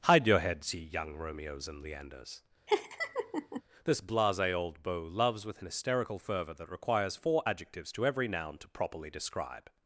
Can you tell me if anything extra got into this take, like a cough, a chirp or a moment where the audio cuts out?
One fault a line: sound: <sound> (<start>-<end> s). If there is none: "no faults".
sound: laugh (2.7-3.6 s)